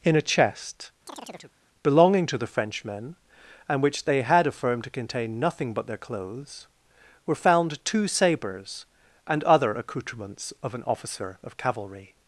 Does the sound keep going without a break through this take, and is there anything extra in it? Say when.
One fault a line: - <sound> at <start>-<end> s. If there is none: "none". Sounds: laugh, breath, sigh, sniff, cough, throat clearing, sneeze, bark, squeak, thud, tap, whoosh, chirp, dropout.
- chirp at 1.1-1.5 s